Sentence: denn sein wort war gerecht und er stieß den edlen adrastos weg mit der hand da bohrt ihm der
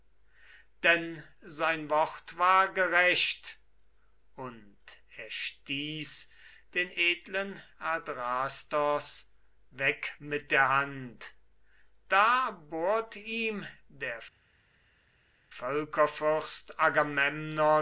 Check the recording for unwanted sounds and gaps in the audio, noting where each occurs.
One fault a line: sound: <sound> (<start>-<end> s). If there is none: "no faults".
no faults